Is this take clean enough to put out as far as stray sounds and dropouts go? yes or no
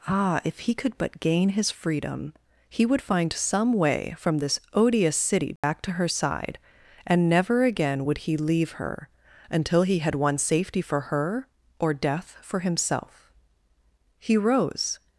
no